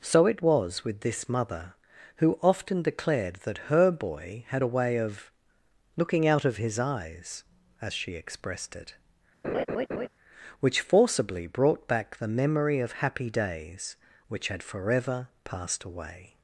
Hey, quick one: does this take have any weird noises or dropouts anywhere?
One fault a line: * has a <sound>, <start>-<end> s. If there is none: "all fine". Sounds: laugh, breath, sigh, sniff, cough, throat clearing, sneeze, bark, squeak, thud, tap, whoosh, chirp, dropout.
* has a laugh, 9.4-10.1 s